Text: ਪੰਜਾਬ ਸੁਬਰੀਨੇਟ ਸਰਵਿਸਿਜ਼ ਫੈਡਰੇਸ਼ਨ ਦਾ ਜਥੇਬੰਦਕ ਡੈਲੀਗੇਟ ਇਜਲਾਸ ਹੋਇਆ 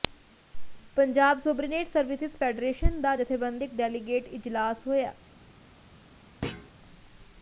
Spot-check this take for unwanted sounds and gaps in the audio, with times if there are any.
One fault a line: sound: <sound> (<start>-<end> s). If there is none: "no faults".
sound: thud (6.4-6.7 s)